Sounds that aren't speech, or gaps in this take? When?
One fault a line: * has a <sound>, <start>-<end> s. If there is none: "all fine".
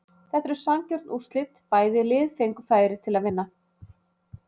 all fine